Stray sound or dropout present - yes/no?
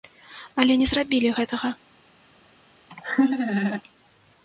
yes